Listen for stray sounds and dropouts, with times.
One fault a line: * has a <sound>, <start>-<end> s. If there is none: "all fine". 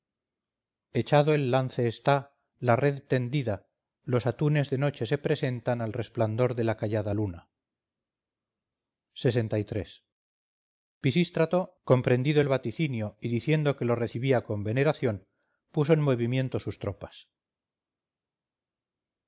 all fine